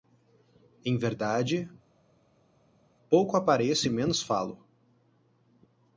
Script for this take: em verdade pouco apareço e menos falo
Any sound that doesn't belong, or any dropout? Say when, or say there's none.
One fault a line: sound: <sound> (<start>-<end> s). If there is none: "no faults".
no faults